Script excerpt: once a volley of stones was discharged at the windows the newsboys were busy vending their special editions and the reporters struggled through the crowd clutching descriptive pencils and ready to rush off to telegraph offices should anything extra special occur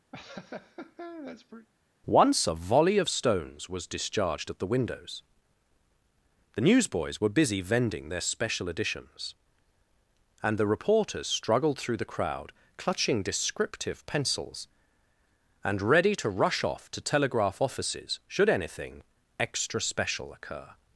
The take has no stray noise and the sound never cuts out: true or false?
false